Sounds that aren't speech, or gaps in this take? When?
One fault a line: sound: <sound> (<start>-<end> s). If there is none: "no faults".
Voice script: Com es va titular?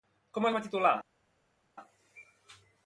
no faults